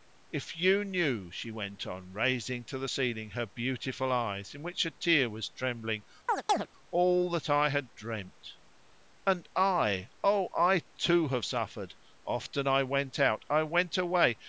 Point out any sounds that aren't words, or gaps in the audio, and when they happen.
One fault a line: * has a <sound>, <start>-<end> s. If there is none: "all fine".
* has a chirp, 6.3-6.7 s